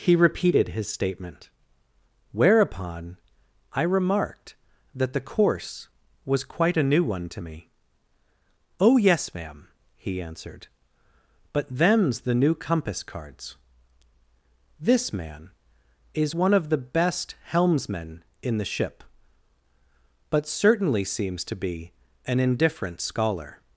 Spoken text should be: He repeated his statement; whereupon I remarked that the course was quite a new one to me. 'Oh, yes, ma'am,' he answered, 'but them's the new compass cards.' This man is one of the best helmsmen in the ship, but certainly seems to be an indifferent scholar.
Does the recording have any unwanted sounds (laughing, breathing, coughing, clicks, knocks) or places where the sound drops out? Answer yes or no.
no